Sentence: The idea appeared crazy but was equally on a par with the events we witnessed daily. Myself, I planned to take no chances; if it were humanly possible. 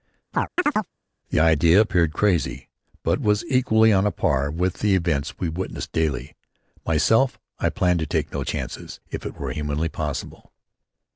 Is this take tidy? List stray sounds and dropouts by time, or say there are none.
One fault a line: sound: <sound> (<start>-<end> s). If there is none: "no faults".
sound: chirp (0.3-0.9 s)